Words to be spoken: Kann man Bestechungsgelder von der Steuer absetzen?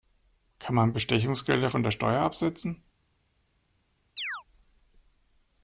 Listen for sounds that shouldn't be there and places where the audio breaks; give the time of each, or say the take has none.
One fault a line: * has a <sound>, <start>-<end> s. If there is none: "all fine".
* has a chirp, 4.2-4.4 s